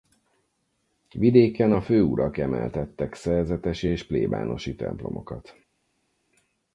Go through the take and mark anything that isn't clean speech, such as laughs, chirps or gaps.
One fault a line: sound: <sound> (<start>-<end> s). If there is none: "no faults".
no faults